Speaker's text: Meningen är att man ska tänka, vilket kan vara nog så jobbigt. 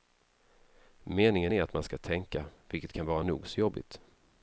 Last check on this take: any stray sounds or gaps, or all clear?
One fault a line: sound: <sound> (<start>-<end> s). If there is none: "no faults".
no faults